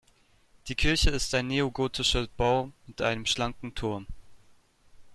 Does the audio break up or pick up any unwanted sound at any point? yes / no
no